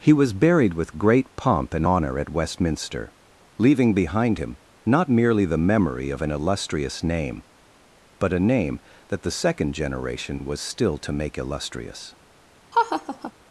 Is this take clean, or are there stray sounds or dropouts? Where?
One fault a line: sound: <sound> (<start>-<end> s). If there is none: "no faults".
sound: laugh (12.7-13.3 s)